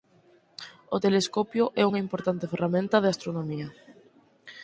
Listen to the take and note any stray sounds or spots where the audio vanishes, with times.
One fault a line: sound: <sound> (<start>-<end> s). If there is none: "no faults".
no faults